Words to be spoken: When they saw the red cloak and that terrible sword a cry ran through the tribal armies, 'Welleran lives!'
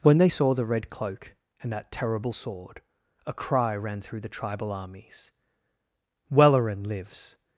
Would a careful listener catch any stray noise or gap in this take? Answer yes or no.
no